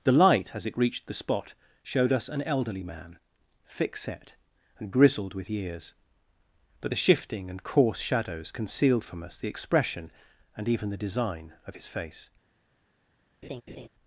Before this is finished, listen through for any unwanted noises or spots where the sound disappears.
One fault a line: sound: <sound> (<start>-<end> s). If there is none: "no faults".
sound: laugh (13.4-13.9 s)